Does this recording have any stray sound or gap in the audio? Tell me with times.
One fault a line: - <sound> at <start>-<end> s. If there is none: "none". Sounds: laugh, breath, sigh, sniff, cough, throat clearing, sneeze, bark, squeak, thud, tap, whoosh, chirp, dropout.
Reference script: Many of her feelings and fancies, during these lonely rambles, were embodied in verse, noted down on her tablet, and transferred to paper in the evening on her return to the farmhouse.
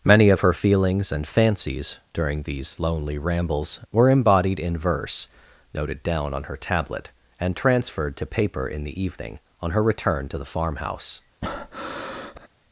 - breath at 11.4-12.5 s